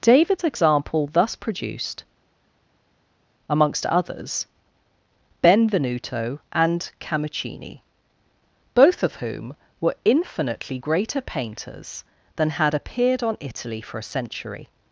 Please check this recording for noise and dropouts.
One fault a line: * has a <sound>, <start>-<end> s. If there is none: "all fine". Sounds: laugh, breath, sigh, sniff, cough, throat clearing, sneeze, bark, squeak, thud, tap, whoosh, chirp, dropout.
all fine